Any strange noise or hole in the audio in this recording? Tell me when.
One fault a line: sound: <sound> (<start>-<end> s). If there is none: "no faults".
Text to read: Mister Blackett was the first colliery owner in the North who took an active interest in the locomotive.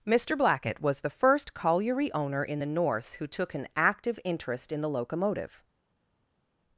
no faults